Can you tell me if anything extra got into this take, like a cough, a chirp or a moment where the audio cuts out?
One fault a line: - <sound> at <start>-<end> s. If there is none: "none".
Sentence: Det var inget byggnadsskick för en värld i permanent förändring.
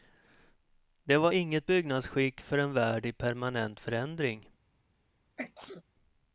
- sneeze at 5.4-5.8 s